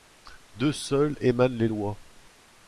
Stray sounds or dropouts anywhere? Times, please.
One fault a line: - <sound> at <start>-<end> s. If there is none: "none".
none